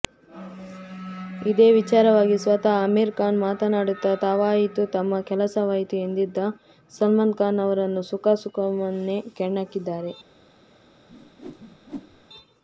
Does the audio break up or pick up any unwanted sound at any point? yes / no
yes